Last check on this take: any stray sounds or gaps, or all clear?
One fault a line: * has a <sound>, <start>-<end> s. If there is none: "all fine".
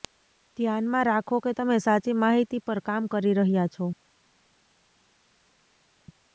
all fine